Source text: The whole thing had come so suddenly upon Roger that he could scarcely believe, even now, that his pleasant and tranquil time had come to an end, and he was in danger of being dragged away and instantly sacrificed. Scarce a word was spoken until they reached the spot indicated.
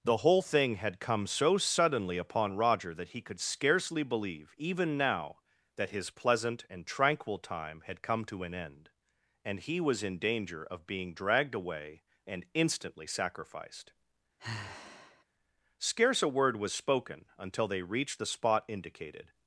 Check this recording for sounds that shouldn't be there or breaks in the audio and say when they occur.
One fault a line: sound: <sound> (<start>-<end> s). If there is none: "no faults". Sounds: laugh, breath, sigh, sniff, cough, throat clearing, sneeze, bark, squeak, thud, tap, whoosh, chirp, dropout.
sound: sigh (14.4-15.2 s)